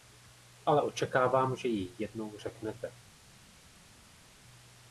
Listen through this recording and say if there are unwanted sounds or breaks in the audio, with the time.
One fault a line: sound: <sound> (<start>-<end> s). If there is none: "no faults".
no faults